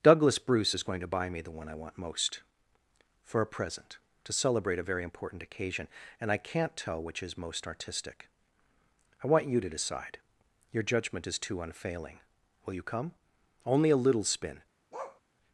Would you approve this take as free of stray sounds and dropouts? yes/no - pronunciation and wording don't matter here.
no